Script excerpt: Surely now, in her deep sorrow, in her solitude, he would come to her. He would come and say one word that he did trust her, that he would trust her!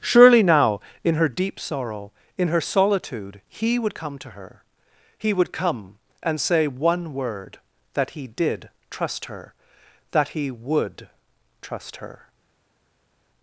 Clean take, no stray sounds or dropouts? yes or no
yes